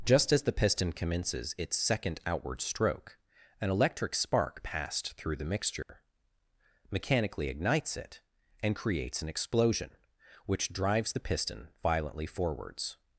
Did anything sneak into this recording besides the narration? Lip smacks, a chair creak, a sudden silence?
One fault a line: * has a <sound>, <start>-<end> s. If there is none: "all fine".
* has a dropout, 5.8-5.9 s